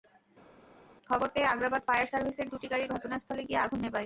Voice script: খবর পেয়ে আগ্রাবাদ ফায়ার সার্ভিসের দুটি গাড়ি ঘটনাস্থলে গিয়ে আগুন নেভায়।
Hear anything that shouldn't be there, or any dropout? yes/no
no